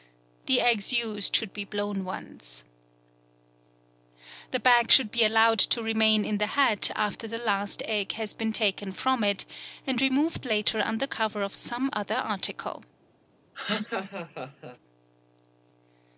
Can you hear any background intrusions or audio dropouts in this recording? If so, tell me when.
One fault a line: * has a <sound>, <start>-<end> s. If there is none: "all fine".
* has a laugh, 13.5-14.8 s